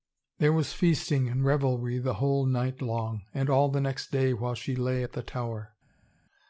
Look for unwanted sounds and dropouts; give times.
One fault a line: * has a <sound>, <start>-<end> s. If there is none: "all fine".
all fine